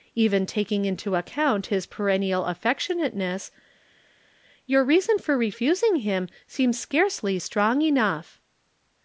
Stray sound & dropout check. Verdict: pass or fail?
pass